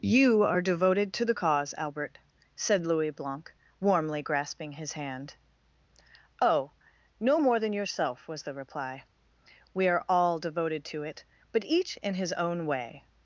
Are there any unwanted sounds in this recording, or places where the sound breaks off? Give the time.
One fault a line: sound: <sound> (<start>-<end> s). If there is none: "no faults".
no faults